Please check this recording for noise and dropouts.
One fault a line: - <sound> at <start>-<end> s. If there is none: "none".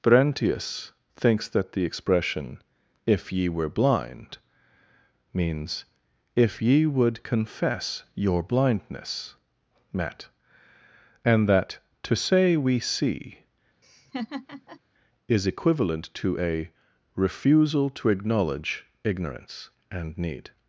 - laugh at 13.8-14.8 s